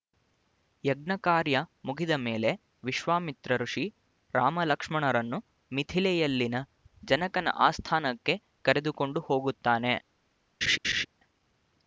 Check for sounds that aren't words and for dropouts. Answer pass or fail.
fail